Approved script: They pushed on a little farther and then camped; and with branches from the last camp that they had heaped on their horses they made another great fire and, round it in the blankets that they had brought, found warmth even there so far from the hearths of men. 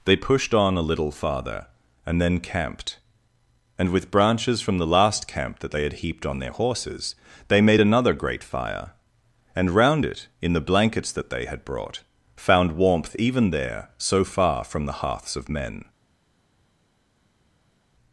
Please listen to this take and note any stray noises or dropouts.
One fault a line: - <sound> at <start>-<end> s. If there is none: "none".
none